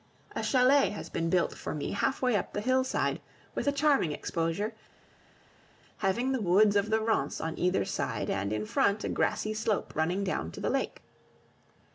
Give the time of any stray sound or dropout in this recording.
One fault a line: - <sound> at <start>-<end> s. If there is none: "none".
none